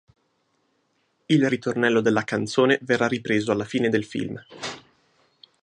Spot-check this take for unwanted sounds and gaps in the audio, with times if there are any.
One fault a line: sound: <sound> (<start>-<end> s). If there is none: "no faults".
no faults